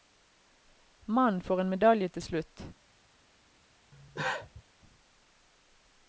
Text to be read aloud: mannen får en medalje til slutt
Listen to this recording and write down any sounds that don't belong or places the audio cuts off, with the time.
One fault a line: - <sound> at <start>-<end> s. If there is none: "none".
- cough at 3.9-4.6 s